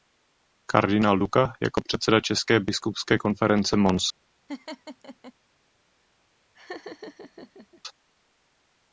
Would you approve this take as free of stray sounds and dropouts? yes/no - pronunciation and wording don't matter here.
no